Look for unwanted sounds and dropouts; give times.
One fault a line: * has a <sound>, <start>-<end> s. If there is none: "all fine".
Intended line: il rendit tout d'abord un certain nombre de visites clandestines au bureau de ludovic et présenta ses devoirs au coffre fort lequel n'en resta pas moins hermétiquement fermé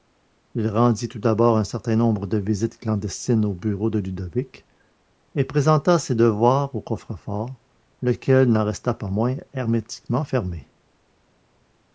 all fine